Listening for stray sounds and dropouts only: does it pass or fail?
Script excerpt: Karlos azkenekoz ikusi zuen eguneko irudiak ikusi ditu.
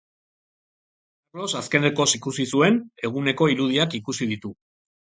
pass